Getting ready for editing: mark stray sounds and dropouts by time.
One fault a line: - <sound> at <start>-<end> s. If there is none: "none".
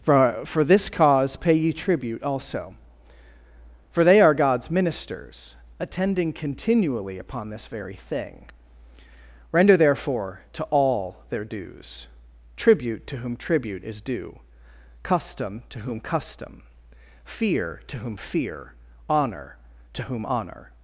none